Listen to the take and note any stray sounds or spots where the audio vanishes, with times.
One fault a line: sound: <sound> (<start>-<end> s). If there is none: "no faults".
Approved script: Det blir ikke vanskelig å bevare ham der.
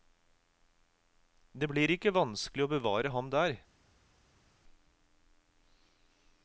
no faults